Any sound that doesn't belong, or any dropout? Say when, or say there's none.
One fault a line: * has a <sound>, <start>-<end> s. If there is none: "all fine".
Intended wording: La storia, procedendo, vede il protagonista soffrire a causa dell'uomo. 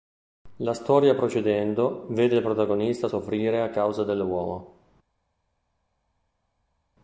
all fine